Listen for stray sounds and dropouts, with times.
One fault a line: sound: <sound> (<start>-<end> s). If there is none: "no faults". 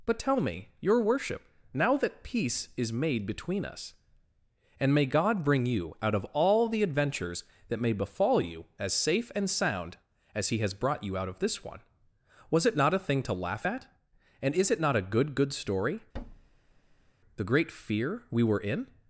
sound: thud (16.1-17.1 s)